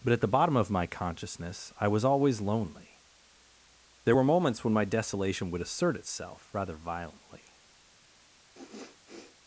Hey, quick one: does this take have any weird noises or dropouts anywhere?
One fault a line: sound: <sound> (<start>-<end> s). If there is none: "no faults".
sound: sniff (8.5-9.4 s)